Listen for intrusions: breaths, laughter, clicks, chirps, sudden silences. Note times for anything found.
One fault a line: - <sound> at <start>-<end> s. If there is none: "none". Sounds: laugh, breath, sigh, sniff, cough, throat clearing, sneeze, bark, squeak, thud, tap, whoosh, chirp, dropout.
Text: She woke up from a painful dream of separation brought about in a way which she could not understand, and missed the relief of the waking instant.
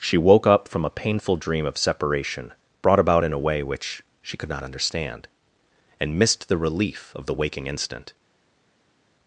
none